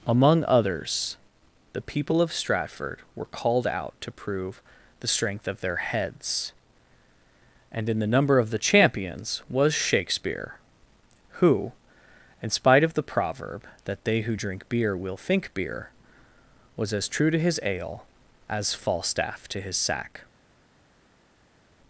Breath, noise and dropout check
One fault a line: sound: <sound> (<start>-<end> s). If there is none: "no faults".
no faults